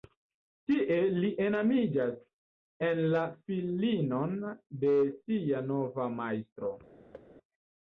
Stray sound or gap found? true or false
true